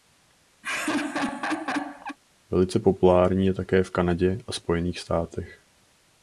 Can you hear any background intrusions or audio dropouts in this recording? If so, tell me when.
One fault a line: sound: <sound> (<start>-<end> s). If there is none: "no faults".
sound: laugh (0.6-2.2 s)